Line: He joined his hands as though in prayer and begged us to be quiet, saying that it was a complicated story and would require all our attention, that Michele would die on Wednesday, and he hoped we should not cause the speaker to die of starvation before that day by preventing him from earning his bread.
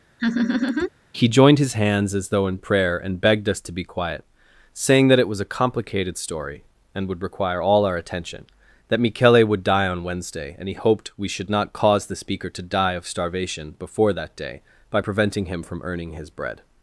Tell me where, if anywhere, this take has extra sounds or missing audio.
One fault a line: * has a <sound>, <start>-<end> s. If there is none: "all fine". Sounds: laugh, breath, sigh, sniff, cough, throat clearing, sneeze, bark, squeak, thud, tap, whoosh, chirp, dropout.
* has a laugh, 0.2-0.9 s